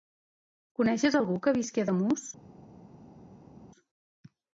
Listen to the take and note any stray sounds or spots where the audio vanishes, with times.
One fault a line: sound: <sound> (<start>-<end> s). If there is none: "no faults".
no faults